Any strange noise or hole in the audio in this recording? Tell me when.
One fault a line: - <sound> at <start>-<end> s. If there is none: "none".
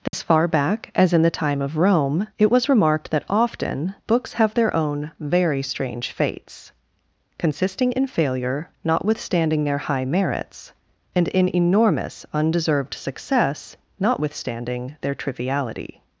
- dropout at 0.1-0.1 s